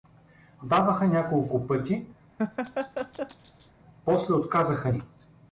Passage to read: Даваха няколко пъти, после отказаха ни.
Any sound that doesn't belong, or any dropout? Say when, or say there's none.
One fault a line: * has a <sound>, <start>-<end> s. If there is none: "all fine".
* has a laugh, 2.4-3.7 s